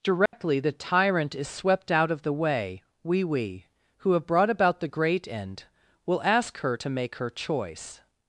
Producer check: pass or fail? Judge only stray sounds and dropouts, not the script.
fail